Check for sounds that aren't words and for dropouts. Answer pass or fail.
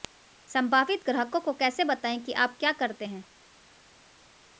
pass